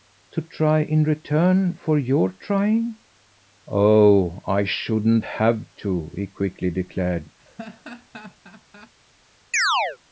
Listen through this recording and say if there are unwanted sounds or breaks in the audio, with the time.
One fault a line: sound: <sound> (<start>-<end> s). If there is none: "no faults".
sound: laugh (7.4-8.9 s)
sound: chirp (9.5-10.0 s)